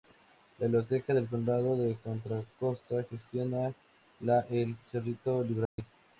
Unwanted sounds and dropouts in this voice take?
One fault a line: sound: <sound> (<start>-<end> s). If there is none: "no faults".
sound: dropout (5.6-5.8 s)